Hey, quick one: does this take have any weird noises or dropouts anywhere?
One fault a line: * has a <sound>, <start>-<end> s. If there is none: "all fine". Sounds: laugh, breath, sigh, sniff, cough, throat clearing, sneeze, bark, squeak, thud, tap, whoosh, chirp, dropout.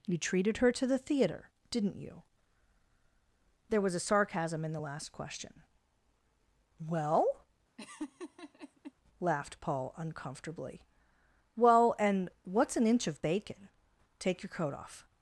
* has a laugh, 7.8-8.9 s